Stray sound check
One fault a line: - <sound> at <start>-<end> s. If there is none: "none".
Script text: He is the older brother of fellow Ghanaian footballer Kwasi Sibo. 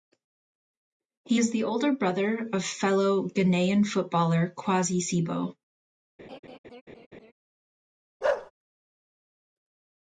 - laugh at 6.2-7.3 s
- bark at 8.2-8.5 s